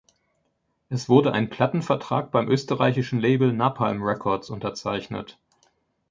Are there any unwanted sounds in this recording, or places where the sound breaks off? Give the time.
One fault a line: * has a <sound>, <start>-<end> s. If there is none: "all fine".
all fine